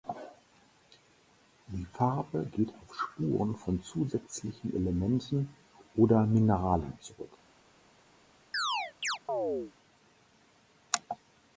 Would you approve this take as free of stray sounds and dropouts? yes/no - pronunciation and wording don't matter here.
no